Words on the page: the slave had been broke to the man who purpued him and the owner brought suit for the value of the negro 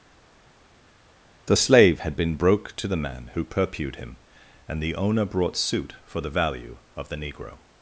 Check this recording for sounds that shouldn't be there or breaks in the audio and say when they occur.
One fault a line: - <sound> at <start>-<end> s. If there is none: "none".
none